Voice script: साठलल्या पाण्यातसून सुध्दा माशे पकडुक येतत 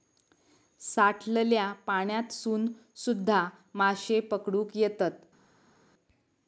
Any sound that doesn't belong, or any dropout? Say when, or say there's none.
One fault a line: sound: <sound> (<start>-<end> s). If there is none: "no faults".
no faults